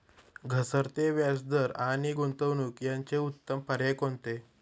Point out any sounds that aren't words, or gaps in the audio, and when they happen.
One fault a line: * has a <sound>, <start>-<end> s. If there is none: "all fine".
all fine